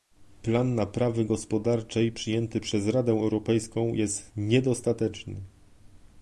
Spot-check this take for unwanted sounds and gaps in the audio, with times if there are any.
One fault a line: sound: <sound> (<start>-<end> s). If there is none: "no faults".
no faults